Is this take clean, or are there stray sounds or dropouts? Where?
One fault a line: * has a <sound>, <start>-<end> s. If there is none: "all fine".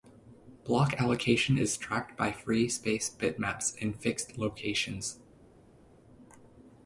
all fine